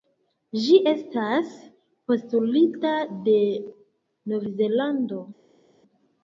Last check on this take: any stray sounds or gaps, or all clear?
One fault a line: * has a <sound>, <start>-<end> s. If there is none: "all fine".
all fine